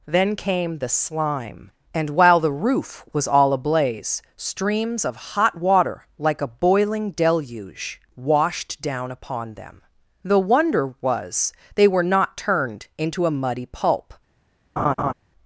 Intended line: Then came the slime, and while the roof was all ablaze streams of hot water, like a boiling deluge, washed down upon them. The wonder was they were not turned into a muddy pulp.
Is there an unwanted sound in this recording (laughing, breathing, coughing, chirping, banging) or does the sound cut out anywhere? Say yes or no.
yes